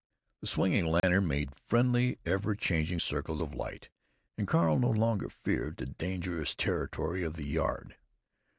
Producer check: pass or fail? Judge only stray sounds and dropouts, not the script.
fail